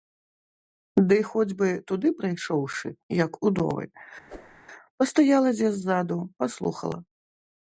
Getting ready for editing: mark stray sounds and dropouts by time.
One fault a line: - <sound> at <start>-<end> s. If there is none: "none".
- whoosh at 4.3-4.6 s